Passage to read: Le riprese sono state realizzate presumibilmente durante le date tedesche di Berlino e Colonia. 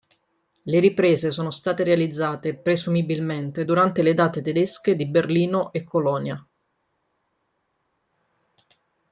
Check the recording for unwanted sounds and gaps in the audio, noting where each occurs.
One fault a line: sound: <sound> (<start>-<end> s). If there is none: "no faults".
no faults